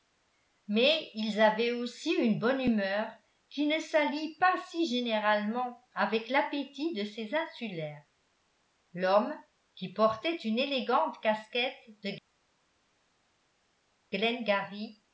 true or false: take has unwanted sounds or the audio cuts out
false